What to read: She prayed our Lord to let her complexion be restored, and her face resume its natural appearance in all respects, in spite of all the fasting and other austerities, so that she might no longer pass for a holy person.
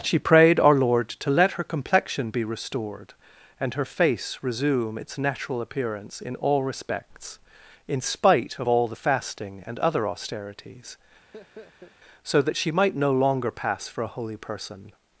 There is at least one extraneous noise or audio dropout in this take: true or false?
true